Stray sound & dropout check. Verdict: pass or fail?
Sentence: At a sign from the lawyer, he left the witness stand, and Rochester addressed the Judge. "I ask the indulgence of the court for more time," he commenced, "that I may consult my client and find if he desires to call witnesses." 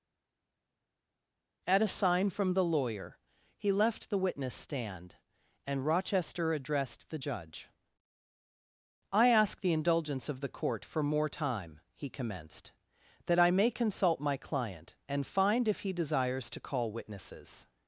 pass